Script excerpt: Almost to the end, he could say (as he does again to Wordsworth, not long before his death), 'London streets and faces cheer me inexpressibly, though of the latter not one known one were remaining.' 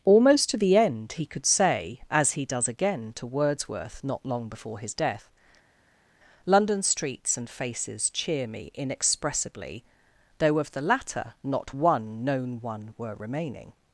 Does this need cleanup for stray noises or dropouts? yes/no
no